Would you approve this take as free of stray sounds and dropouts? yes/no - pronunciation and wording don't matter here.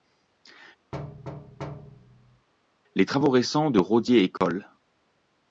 no